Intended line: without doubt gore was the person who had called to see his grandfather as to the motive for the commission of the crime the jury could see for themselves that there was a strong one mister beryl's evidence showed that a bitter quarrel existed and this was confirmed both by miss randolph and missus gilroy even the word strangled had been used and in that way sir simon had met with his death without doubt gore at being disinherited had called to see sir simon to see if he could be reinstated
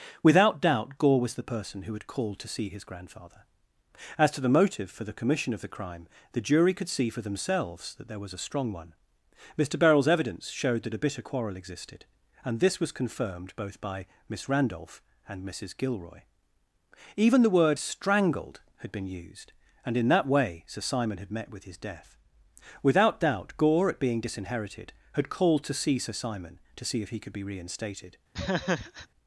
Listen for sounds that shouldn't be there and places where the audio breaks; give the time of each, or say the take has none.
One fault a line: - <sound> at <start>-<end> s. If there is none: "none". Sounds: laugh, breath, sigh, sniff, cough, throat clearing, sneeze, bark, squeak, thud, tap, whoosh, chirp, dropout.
- laugh at 28.3-29.1 s